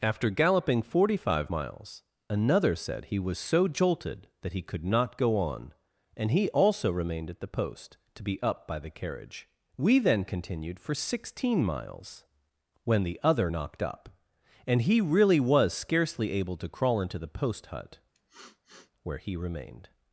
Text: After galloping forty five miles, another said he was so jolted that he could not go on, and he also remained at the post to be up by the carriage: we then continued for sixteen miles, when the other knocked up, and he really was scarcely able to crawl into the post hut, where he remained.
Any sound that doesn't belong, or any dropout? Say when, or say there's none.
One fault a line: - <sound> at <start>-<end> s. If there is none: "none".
- sniff at 18.1-18.9 s